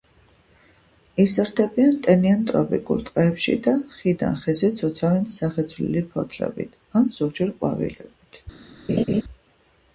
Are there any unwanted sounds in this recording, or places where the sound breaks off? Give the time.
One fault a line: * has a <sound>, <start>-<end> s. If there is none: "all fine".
* has a laugh, 8.9-9.2 s